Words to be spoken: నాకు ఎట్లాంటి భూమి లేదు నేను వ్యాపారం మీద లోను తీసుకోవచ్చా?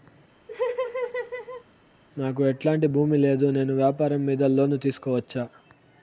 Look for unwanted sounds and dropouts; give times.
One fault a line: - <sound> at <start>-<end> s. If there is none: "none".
- laugh at 0.5-1.6 s